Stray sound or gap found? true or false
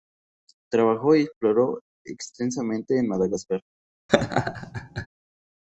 true